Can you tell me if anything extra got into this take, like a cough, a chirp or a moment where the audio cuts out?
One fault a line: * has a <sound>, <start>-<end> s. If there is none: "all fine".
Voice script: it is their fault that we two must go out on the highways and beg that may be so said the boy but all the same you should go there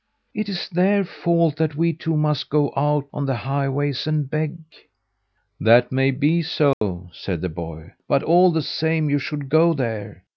* has a dropout, 6.7-6.8 s